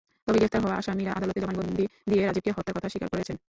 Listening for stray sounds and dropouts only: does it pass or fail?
pass